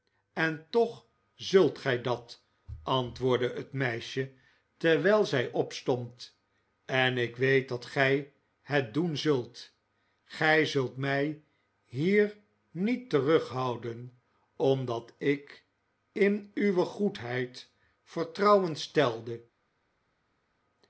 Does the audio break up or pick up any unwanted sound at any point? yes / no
no